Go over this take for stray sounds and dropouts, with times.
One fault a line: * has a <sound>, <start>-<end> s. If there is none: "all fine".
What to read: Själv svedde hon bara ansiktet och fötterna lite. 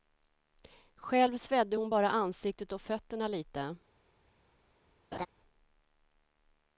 * has a laugh, 5.1-5.3 s